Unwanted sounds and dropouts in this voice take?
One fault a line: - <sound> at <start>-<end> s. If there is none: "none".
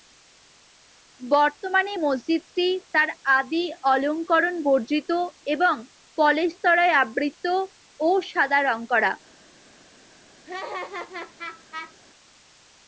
- laugh at 10.4-11.9 s